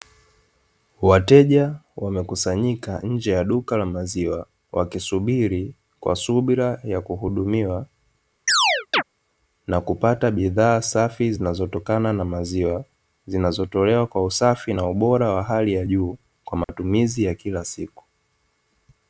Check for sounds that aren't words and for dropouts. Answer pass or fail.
fail